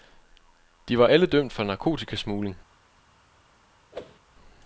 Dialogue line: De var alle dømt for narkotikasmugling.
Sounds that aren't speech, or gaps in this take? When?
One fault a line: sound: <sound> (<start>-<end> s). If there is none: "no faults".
sound: whoosh (3.9-4.2 s)